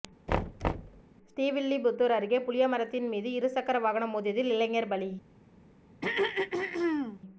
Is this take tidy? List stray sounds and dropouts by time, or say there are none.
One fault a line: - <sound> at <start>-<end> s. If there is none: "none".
- thud at 0.3-1.0 s
- throat clearing at 6.0-7.2 s